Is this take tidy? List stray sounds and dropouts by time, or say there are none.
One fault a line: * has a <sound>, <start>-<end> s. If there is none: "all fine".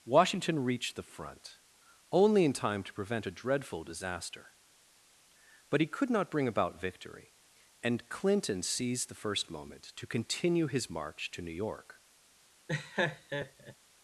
* has a laugh, 12.7-13.7 s